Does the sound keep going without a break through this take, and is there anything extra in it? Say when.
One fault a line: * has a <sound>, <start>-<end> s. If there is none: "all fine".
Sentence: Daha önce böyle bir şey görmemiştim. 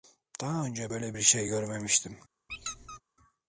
* has a squeak, 2.5-3.0 s